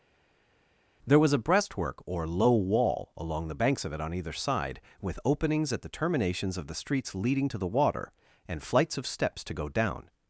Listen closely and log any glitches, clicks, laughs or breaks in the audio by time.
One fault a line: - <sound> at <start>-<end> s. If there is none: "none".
none